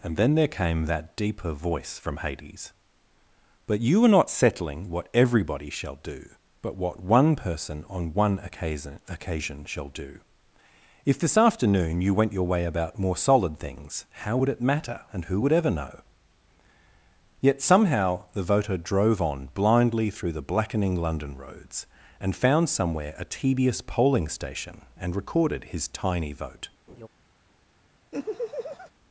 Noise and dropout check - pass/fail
fail